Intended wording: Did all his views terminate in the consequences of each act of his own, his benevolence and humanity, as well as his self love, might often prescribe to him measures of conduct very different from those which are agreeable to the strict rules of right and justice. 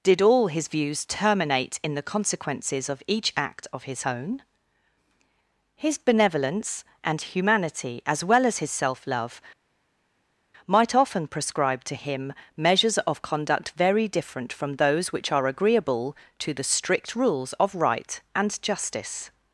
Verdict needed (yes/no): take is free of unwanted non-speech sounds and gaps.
yes